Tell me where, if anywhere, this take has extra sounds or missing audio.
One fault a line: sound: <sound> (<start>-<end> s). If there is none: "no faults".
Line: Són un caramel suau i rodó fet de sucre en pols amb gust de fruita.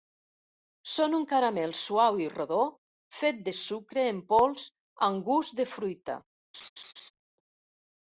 sound: laugh (6.5-7.1 s)